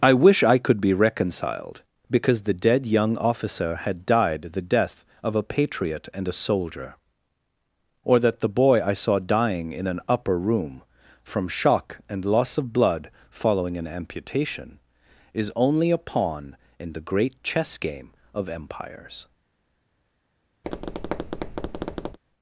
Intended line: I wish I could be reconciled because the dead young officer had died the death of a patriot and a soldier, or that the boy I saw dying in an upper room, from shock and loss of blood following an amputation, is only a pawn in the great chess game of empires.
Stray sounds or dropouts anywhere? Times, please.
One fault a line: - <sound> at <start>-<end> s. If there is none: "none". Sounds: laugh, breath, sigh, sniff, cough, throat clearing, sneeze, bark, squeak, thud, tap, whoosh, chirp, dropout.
- tap at 20.6-22.2 s